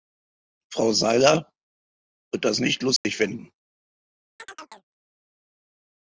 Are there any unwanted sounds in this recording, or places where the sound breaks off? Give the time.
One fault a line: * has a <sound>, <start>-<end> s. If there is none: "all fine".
* has a dropout, 3.0-3.0 s
* has a chirp, 4.4-4.9 s